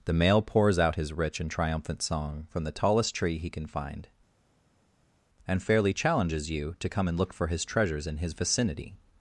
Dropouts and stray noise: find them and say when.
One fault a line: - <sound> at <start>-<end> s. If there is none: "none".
none